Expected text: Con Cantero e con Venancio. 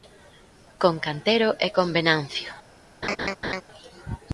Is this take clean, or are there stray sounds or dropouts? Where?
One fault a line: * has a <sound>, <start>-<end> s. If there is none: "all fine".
* has a laugh, 3.0-3.6 s